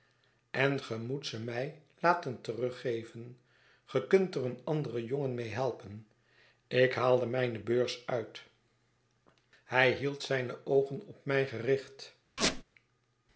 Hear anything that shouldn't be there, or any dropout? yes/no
yes